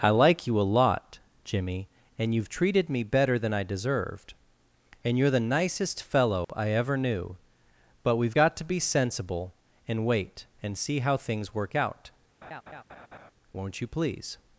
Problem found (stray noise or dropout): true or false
true